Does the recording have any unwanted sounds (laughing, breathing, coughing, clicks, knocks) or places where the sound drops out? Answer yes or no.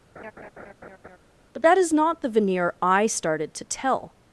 yes